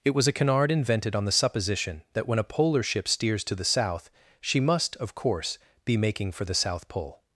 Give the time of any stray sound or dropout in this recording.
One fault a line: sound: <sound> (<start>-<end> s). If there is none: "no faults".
no faults